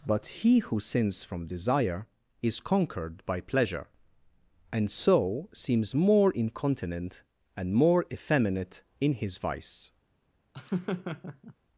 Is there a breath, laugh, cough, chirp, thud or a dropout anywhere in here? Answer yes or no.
yes